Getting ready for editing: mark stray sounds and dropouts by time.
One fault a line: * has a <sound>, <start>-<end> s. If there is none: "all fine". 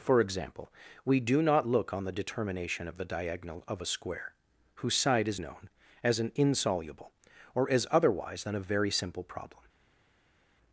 all fine